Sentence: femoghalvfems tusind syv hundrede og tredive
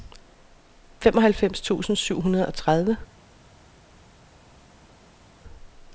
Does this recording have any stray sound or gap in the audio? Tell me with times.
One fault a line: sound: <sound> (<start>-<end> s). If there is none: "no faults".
no faults